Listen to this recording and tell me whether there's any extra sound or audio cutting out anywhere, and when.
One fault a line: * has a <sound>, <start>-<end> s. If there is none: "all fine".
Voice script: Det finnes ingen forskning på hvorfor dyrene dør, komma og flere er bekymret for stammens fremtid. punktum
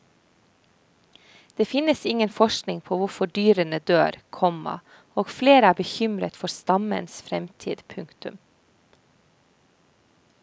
all fine